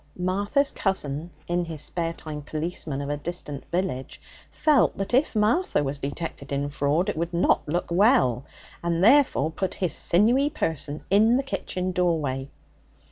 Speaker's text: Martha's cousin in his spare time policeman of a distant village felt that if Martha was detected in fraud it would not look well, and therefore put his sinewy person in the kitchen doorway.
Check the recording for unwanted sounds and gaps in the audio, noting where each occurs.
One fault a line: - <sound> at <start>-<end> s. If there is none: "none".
none